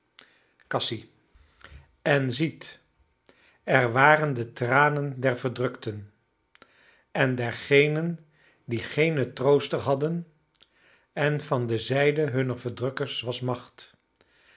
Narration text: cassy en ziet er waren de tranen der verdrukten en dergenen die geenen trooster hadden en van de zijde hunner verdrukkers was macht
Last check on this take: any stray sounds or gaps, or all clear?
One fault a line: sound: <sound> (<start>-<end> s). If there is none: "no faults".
no faults